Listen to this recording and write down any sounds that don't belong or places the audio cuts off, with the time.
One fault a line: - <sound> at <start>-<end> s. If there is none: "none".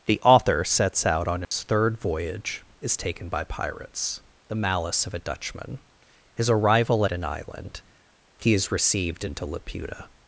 - dropout at 1.4-1.5 s